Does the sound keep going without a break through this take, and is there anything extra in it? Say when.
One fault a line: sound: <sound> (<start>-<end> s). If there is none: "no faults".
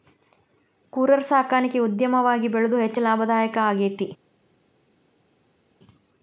no faults